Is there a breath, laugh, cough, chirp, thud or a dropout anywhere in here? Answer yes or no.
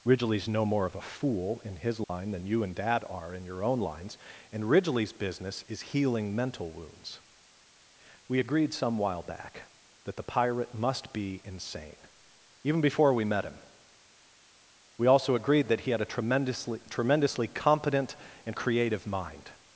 yes